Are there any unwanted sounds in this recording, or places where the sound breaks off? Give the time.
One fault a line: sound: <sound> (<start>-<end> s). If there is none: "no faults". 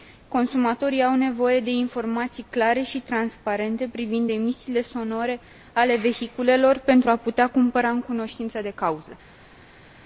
no faults